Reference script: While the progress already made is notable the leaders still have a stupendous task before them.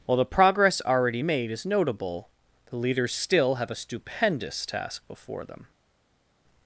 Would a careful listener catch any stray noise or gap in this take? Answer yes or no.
no